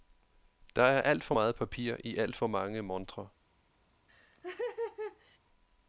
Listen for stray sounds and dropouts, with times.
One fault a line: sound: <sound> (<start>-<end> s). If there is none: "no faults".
sound: laugh (4.1-5.4 s)